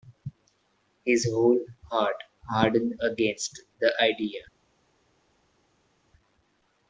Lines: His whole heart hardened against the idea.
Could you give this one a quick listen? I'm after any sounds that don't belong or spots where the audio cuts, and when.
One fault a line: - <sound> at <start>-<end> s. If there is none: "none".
none